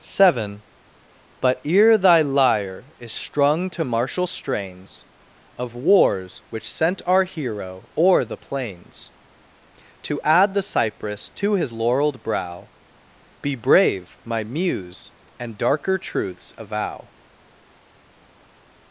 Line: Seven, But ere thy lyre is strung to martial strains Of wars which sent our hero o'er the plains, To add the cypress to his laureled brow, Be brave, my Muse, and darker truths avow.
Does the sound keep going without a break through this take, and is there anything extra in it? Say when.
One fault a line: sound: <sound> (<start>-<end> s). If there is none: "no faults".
no faults